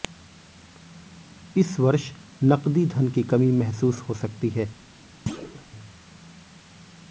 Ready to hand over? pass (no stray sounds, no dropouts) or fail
fail